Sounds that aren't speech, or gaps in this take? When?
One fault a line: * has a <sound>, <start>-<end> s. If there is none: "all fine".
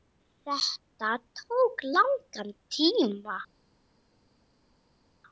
all fine